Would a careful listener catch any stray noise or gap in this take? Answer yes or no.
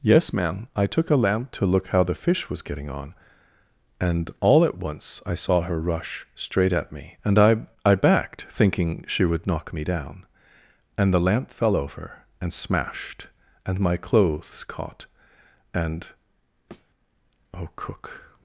yes